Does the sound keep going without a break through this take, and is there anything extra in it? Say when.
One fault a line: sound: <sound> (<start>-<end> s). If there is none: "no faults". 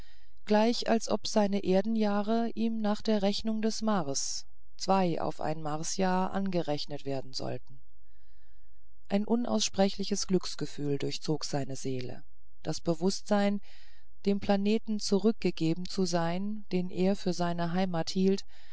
no faults